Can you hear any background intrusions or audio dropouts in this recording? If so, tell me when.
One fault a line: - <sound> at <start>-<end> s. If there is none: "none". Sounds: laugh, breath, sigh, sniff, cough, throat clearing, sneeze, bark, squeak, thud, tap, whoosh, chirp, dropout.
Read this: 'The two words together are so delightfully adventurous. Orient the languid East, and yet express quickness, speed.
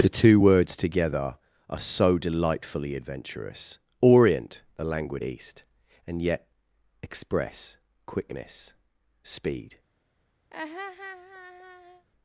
- laugh at 10.5-12.1 s